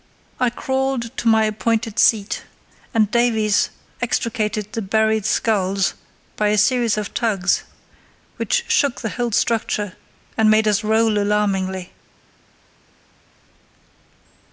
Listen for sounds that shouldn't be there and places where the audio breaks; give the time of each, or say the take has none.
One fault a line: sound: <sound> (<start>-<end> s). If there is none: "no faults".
no faults